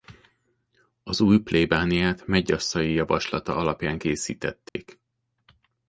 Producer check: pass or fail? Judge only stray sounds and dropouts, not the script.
fail